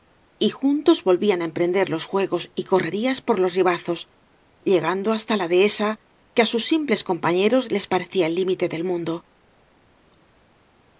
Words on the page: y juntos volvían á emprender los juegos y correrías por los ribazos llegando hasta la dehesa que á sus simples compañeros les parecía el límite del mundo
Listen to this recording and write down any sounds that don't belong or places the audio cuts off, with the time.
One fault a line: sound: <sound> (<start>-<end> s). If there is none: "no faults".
no faults